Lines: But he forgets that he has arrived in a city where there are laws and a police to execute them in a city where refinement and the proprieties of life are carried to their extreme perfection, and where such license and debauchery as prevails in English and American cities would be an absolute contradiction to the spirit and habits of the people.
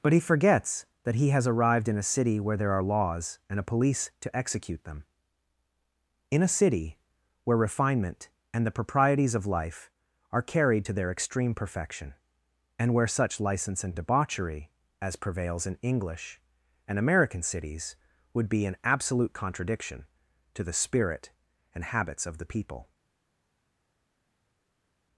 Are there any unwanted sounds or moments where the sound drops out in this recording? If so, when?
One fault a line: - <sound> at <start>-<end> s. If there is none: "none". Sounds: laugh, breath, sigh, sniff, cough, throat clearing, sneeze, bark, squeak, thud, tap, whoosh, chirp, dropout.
none